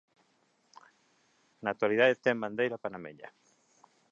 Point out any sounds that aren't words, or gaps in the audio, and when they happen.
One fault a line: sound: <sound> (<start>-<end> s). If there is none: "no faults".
no faults